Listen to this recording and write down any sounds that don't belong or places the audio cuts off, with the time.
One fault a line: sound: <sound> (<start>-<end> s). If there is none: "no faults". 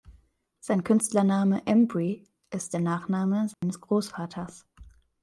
sound: dropout (3.5-3.6 s)